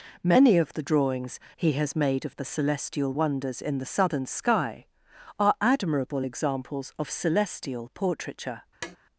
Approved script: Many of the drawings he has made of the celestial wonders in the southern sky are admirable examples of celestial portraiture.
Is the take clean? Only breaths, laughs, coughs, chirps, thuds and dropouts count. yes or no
no